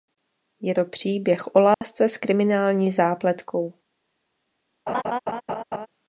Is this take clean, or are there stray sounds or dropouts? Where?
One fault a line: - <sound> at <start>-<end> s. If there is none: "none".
- dropout at 1.7-1.8 s
- laugh at 4.9-5.9 s